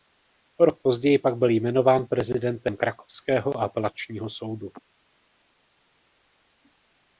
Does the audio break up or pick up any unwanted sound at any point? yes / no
no